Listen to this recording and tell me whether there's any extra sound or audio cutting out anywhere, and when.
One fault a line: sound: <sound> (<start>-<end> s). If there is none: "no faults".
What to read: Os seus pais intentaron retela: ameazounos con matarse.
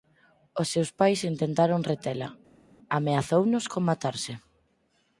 no faults